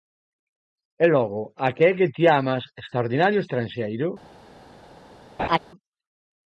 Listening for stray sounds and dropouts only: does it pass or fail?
fail